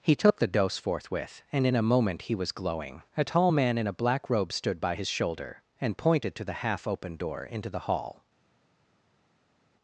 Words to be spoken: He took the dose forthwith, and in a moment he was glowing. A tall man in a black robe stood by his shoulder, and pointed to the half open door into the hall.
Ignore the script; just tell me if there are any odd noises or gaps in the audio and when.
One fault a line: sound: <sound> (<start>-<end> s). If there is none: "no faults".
no faults